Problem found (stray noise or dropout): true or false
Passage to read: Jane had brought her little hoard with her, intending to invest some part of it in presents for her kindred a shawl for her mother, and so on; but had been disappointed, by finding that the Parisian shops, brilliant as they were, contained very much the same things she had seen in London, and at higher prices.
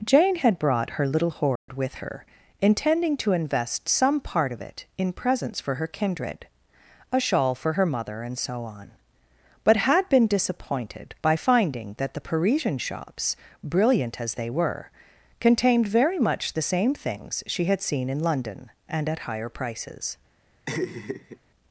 true